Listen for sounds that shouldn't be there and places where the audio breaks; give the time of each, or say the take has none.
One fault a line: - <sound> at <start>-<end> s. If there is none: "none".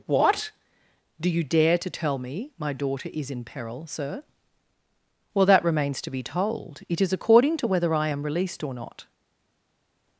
none